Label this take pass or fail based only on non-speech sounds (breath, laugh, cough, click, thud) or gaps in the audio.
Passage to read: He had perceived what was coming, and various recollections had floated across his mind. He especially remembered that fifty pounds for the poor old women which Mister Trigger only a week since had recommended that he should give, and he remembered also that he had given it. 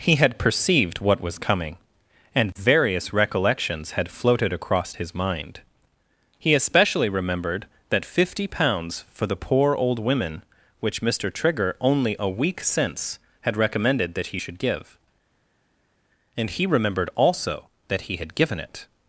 pass